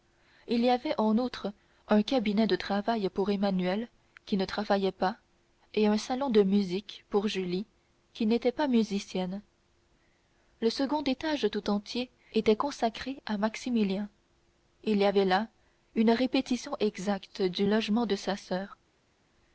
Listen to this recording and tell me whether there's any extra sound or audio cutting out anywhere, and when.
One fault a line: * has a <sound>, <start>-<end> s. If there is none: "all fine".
all fine